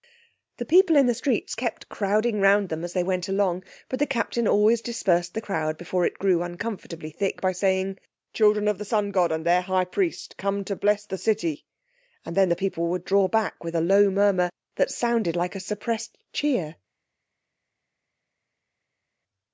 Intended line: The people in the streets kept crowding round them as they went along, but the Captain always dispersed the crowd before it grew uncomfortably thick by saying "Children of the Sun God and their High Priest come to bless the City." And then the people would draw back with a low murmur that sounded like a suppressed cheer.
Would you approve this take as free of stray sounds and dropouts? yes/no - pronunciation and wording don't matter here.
yes